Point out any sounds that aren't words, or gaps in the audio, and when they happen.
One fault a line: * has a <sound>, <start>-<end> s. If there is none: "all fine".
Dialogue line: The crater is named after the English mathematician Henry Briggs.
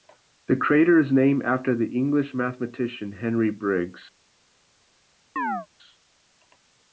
* has a chirp, 5.4-5.7 s